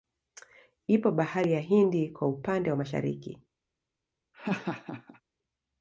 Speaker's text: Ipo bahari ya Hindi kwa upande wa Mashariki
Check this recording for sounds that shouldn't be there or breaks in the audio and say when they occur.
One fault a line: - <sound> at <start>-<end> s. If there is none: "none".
- laugh at 4.3-5.2 s